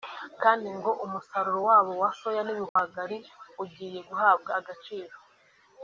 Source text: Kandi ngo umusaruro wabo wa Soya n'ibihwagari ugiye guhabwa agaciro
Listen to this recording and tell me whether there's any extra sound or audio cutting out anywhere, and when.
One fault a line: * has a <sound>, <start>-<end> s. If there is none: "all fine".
* has a dropout, 2.7-2.8 s